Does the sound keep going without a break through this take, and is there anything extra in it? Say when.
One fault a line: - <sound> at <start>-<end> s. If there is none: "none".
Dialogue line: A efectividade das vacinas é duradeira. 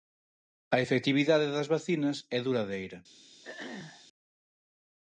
- throat clearing at 3.4-4.1 s